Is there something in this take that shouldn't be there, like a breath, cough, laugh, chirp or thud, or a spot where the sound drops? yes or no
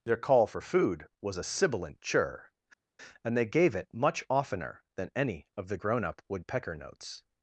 no